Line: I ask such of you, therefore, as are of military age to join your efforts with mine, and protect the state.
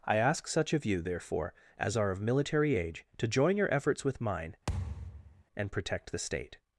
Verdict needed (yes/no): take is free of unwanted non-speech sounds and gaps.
no